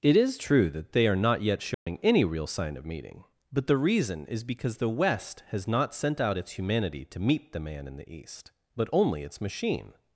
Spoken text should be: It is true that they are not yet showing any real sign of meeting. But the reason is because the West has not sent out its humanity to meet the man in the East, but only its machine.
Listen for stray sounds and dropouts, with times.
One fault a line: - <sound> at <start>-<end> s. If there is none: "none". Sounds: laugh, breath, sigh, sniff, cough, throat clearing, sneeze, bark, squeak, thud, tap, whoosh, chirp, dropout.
- dropout at 1.7-1.9 s